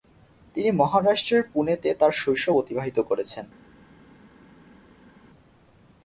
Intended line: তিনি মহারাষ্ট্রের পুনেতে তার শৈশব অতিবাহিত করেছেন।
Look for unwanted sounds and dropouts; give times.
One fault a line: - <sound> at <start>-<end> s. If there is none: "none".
none